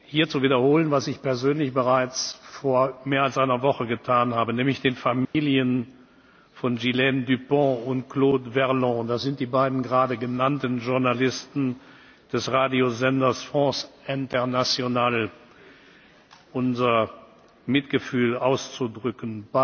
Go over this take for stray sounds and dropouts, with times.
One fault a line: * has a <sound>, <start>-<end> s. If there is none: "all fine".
* has a dropout, 5.2-5.3 s